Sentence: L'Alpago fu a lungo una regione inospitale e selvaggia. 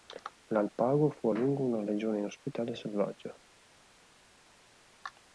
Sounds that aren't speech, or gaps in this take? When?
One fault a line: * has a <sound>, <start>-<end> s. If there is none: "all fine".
all fine